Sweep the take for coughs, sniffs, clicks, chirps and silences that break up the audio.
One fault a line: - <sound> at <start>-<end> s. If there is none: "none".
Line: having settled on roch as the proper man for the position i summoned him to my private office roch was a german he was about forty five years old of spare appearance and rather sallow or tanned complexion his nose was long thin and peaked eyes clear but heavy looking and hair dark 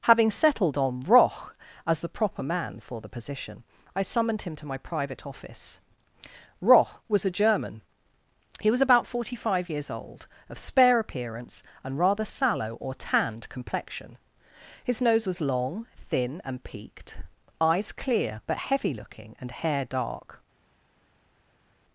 none